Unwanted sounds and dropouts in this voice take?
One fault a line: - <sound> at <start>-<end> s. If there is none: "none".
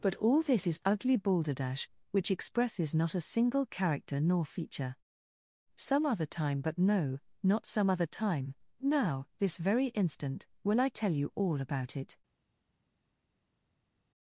none